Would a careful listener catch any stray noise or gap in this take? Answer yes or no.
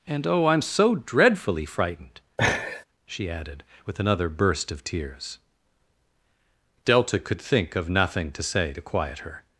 yes